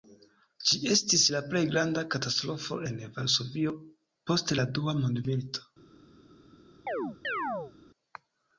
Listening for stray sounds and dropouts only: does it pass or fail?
fail